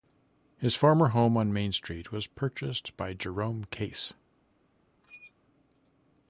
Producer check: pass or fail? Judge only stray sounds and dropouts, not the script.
fail